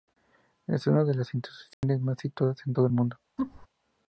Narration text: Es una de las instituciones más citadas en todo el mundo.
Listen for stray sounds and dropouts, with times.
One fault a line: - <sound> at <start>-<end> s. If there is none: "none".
- dropout at 1.7-1.8 s
- laugh at 3.4-3.7 s